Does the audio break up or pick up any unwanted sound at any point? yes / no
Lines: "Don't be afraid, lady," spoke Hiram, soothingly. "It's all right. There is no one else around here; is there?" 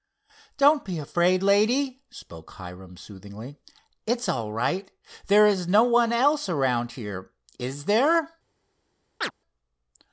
yes